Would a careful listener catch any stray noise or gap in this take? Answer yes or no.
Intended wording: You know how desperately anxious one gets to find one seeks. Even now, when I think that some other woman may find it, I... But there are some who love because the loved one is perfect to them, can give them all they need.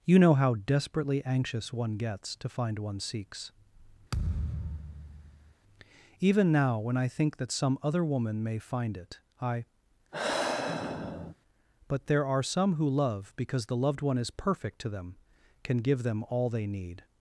yes